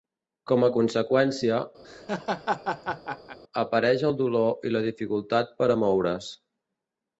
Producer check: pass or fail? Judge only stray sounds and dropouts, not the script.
fail